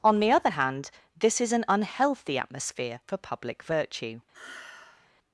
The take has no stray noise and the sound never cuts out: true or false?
false